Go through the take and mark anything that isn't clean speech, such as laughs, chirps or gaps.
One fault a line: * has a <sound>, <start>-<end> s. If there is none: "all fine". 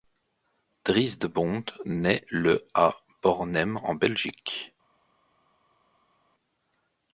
all fine